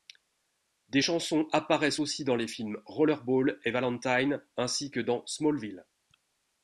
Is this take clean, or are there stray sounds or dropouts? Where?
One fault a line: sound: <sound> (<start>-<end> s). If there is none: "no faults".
no faults